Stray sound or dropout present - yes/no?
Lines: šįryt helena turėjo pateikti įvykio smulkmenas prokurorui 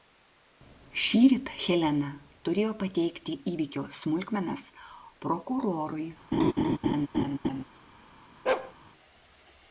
yes